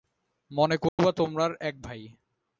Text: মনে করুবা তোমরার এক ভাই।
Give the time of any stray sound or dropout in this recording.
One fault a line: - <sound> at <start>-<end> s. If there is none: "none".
- dropout at 0.9-1.0 s